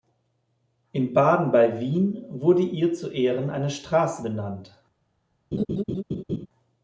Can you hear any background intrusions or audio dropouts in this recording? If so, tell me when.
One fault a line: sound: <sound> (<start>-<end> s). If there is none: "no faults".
sound: laugh (5.5-6.5 s)